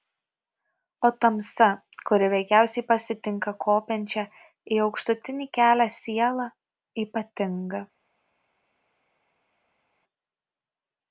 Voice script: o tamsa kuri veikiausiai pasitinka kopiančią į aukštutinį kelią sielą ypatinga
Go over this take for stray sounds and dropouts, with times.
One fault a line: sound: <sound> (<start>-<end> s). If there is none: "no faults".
no faults